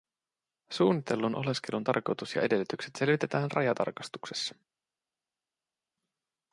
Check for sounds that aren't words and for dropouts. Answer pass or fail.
pass